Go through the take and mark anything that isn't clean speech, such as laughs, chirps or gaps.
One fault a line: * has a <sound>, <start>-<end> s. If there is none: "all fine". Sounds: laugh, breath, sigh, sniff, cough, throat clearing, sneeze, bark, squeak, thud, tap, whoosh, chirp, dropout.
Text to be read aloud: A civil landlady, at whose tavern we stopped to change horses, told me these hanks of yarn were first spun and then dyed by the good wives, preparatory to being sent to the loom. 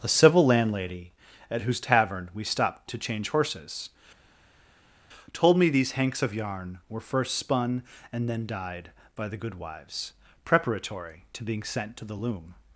all fine